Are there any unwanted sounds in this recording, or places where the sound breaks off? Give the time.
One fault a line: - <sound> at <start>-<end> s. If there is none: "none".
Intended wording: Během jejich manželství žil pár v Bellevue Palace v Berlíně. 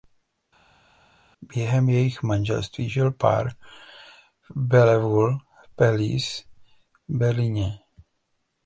none